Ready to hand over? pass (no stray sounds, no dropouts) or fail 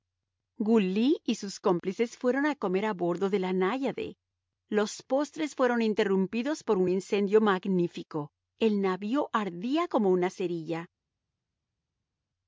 pass